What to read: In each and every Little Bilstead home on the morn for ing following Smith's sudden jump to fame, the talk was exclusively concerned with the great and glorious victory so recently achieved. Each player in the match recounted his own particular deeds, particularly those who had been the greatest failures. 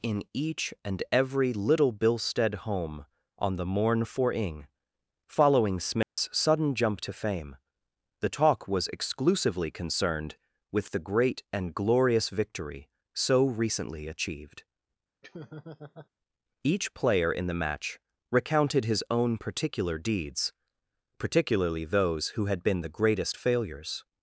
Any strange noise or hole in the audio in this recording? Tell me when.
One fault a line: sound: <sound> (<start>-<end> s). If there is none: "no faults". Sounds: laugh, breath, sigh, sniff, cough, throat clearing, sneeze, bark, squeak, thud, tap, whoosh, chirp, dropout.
sound: dropout (6.0-6.2 s)
sound: laugh (15.2-16.1 s)